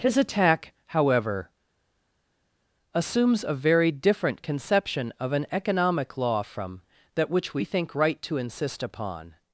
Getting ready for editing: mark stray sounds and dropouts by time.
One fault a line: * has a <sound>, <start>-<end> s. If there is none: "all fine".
all fine